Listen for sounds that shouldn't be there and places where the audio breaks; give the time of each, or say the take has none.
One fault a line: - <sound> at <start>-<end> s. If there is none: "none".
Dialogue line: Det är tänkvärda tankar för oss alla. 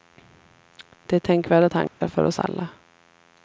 - dropout at 1.9-2.0 s